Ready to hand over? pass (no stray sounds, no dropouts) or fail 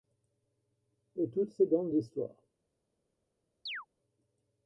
fail